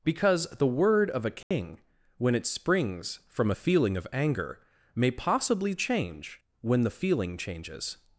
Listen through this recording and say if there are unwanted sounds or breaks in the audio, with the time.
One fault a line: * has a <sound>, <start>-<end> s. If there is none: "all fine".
* has a dropout, 1.4-1.5 s